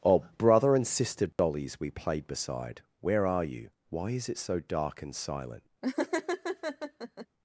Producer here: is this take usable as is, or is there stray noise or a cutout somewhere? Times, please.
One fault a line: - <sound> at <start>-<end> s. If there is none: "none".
- dropout at 1.3-1.4 s
- laugh at 5.8-7.3 s